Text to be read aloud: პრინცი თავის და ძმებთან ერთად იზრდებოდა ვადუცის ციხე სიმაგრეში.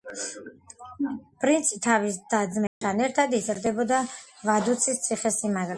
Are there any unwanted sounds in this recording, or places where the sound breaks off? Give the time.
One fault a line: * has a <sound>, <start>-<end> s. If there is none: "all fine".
* has a dropout, 2.7-2.8 s